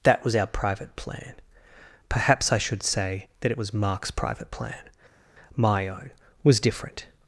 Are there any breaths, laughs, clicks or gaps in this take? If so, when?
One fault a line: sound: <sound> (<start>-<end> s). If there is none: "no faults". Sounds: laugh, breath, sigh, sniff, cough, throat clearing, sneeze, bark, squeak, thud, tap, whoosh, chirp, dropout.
no faults